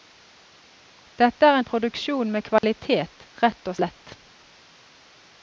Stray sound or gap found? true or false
true